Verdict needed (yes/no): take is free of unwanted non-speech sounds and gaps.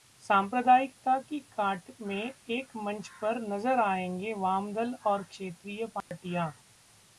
no